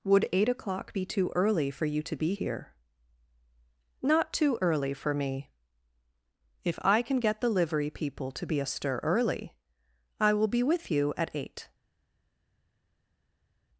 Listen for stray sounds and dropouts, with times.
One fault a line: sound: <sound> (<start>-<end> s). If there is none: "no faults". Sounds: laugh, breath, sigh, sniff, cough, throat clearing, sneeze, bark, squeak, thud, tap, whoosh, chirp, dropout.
no faults